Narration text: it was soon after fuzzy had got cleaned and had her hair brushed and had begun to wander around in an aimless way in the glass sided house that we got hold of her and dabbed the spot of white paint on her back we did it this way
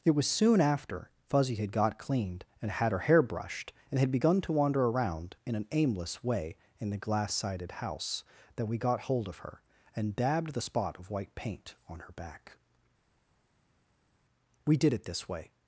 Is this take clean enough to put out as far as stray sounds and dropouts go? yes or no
yes